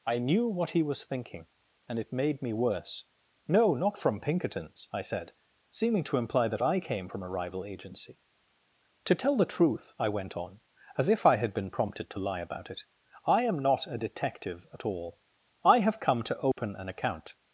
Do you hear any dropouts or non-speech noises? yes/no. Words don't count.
yes